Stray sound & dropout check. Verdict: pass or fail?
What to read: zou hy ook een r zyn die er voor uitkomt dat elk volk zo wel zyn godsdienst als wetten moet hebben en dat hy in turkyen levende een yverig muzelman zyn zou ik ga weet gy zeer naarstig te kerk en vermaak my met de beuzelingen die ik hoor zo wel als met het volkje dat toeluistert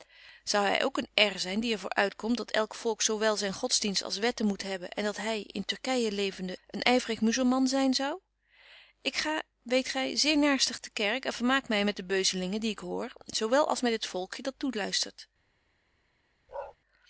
fail